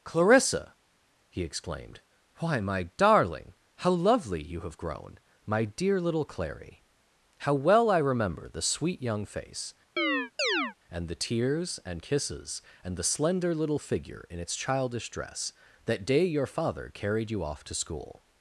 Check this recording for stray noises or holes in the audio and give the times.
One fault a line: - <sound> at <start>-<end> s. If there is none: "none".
- chirp at 10.0-10.7 s